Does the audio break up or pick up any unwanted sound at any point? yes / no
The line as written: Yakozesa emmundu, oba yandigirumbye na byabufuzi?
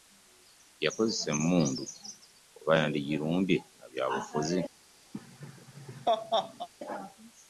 yes